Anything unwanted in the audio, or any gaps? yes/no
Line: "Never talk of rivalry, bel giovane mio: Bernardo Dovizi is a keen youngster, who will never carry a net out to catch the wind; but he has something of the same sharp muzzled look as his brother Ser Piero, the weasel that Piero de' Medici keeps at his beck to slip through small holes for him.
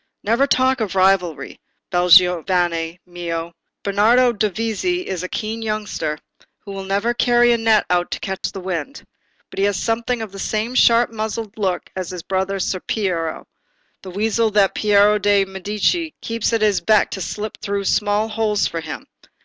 yes